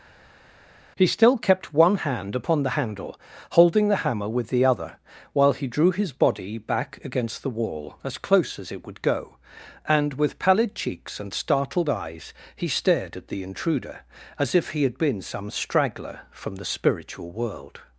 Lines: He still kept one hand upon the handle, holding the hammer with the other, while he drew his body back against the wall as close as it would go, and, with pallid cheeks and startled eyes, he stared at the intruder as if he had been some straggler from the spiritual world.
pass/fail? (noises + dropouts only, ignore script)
pass